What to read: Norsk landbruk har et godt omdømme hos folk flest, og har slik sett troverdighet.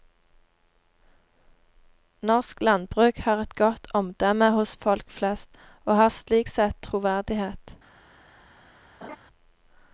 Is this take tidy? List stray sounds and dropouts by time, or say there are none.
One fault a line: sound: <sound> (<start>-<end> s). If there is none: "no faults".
sound: laugh (9.0-9.2 s)